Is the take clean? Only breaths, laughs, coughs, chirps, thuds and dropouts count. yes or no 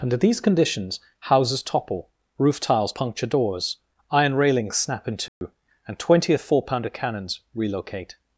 no